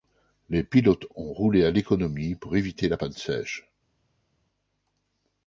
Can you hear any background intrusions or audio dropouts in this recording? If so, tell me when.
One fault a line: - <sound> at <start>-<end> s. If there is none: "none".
none